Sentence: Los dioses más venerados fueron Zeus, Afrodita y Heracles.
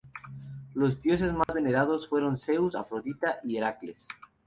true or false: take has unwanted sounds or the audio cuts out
true